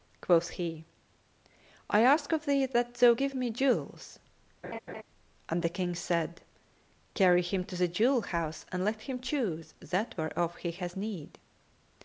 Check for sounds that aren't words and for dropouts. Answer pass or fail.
fail